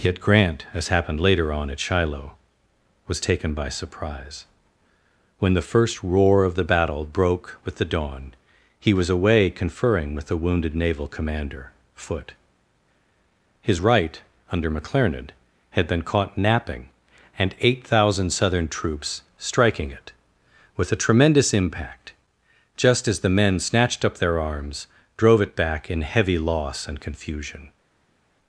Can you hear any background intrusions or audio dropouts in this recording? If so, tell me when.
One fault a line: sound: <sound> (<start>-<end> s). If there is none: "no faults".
no faults